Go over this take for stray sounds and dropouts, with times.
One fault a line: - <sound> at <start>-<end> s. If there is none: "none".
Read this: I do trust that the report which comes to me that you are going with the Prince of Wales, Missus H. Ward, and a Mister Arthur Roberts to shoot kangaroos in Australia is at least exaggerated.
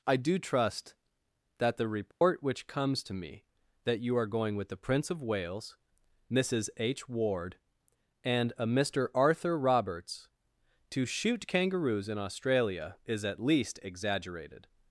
- dropout at 2.1-2.2 s